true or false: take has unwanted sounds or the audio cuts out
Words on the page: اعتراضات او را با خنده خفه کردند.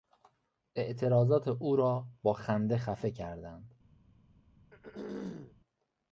true